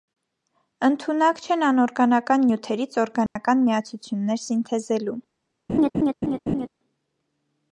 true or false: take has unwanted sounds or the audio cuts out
true